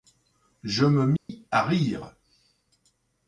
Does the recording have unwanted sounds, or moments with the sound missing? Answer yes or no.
yes